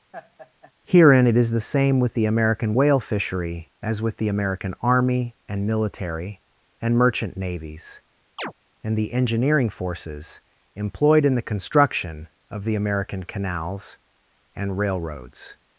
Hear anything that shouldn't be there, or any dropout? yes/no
yes